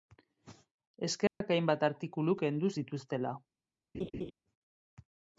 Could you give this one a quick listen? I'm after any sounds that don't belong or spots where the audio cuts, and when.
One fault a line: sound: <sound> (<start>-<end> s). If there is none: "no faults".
sound: dropout (1.3-1.4 s)
sound: laugh (3.9-4.3 s)